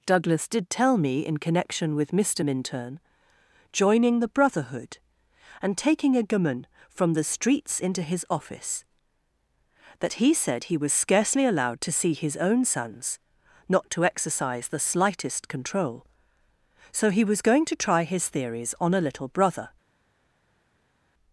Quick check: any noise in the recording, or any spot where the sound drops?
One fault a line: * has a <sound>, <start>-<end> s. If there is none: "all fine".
all fine